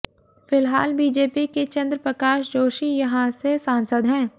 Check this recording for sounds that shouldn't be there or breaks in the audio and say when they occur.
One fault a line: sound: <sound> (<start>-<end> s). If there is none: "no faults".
no faults